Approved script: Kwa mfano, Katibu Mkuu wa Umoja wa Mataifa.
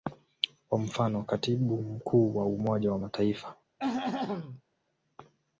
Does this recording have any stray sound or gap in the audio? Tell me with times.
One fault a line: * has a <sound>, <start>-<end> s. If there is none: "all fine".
* has a throat clearing, 3.8-4.6 s